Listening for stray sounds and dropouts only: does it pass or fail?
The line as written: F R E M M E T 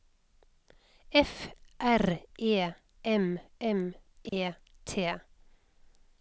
fail